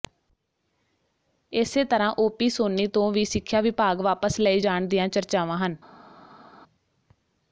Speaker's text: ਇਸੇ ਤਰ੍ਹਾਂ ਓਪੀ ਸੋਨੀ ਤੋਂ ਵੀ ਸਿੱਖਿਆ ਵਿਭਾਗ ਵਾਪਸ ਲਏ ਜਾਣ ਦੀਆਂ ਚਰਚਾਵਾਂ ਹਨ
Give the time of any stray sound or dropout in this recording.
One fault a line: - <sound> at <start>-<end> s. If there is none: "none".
none